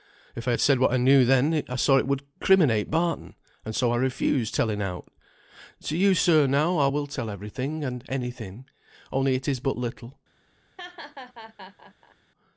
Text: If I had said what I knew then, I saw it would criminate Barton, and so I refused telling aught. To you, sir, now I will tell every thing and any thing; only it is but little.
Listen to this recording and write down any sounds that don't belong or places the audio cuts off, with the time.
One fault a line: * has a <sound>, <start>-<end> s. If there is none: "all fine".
* has a laugh, 10.8-12.2 s